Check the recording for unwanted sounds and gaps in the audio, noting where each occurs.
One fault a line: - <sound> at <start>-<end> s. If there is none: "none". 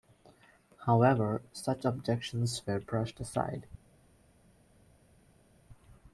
none